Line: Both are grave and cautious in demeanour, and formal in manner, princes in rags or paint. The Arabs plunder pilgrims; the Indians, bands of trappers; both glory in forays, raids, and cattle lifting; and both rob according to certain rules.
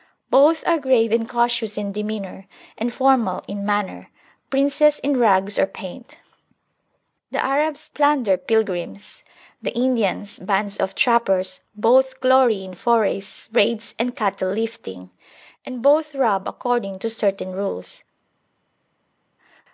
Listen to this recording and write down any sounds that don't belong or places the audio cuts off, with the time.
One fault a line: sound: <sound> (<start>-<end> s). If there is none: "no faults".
no faults